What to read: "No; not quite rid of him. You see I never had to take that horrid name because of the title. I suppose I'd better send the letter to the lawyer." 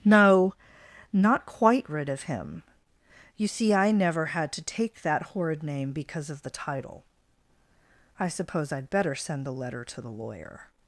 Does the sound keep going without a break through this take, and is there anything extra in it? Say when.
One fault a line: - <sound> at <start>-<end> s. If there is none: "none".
none